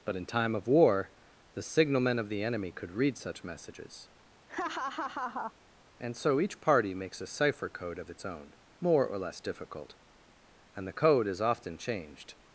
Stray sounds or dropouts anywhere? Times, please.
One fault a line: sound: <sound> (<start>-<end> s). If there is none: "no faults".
sound: laugh (4.5-5.5 s)